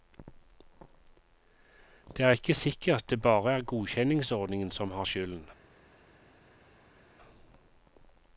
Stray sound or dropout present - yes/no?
no